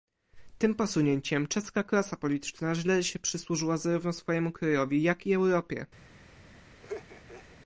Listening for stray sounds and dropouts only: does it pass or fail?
fail